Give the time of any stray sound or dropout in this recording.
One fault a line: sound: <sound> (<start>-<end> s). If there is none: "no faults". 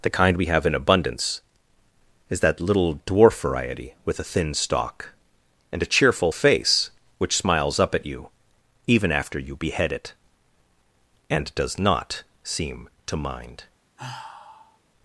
sound: sigh (14.0-14.8 s)